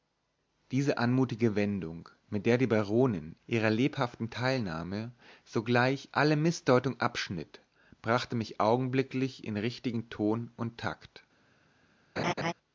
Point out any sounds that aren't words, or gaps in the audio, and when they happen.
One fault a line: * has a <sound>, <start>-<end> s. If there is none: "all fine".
* has a laugh, 12.2-12.5 s